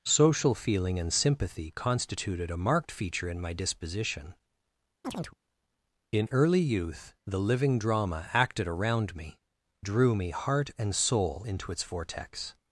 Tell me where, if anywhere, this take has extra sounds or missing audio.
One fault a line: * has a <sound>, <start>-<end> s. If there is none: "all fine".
* has a chirp, 5.0-5.4 s